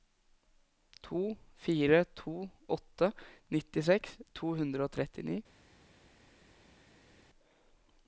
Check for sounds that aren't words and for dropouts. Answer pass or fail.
pass